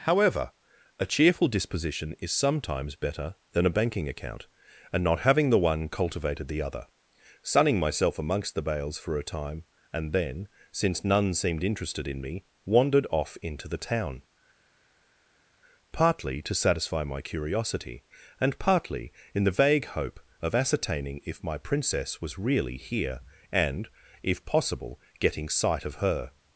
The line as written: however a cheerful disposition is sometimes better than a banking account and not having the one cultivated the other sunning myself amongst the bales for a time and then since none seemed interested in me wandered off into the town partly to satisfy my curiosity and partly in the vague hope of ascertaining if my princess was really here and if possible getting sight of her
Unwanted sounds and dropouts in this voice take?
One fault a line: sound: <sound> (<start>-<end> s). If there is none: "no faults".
no faults